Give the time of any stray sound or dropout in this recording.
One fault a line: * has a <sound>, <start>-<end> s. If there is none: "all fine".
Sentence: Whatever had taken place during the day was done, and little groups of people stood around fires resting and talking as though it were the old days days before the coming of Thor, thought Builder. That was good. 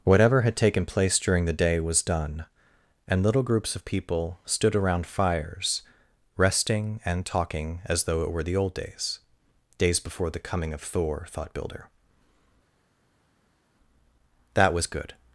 all fine